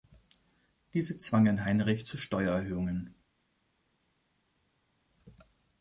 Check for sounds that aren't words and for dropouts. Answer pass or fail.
pass